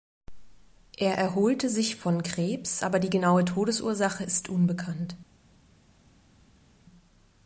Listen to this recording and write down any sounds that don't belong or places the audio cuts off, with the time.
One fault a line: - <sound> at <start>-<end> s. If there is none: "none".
none